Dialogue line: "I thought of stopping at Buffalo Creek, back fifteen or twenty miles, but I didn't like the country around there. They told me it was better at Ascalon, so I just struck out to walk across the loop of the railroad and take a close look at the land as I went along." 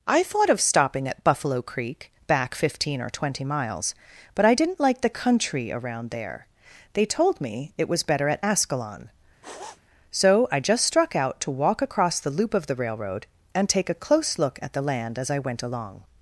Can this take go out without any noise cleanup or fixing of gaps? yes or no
no